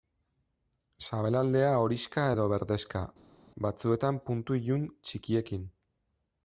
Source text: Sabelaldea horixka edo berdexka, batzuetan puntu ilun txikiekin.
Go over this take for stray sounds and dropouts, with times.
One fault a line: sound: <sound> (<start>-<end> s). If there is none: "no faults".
no faults